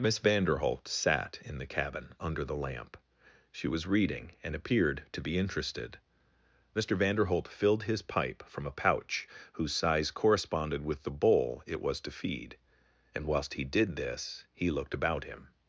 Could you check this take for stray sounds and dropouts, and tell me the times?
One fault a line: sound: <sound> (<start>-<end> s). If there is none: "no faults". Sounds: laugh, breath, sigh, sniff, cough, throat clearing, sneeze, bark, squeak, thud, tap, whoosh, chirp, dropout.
no faults